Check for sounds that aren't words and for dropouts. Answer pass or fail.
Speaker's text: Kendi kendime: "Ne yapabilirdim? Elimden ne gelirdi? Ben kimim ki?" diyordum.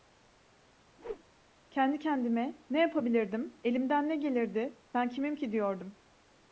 fail